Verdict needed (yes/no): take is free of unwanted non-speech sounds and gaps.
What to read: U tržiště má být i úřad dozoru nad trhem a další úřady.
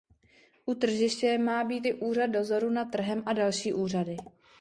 yes